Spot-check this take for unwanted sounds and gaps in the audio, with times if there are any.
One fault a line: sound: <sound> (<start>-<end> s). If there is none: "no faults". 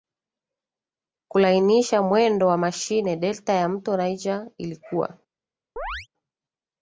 sound: chirp (5.8-6.1 s)